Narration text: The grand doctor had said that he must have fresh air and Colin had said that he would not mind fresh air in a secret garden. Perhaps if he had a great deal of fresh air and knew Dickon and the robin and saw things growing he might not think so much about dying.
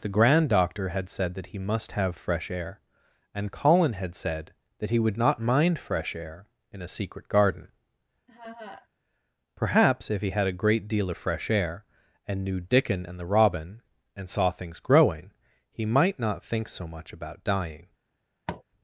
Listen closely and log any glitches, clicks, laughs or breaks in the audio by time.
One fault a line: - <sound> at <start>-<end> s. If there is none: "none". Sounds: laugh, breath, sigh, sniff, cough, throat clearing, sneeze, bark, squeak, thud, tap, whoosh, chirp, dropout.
- laugh at 8.3-8.9 s
- tap at 18.5-18.6 s